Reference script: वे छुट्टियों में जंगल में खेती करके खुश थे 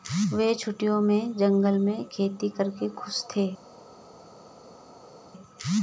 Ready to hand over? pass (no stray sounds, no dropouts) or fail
pass